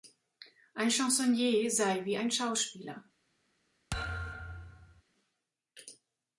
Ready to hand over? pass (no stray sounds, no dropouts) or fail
fail